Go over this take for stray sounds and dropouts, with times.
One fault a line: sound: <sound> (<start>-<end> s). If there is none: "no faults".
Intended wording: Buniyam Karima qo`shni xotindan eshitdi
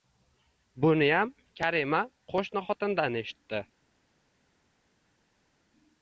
no faults